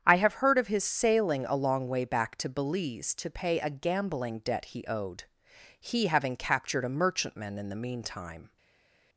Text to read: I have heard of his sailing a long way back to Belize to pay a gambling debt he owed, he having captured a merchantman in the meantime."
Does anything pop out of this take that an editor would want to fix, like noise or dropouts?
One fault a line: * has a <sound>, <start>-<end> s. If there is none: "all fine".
all fine